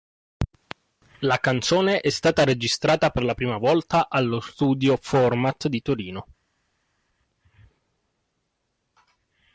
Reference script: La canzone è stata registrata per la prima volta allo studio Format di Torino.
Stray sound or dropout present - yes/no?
no